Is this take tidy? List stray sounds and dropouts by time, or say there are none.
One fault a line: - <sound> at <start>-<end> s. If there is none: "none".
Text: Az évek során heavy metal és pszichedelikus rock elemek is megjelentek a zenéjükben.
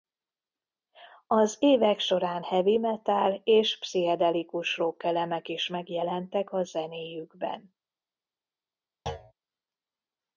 - thud at 9.1-9.3 s